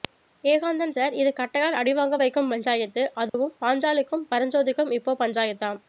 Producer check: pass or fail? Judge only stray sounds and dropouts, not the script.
fail